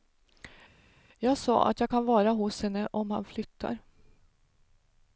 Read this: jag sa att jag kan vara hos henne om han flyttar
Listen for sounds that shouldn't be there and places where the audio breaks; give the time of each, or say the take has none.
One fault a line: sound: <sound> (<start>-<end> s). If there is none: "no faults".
no faults